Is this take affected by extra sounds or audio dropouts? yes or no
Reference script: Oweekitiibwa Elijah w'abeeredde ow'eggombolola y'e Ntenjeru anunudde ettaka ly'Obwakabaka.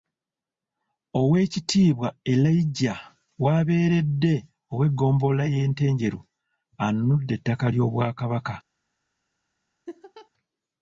yes